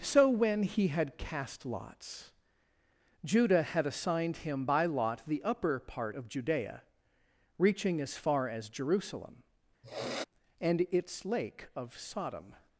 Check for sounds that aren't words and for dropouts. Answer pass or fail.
fail